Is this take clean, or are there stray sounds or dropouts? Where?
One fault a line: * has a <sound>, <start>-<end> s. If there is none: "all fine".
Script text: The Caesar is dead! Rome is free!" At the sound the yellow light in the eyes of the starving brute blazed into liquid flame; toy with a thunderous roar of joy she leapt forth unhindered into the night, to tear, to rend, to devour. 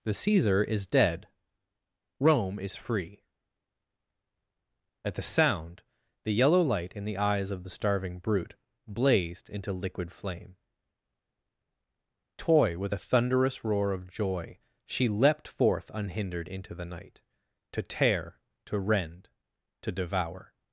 all fine